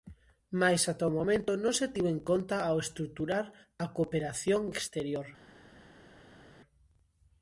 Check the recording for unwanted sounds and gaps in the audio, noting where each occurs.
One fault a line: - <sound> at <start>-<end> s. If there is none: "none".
none